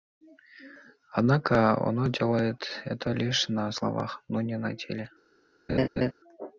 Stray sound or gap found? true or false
true